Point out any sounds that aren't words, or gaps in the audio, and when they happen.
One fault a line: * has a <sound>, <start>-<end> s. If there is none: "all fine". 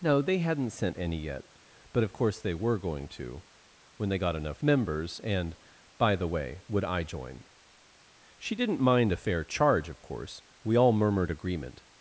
all fine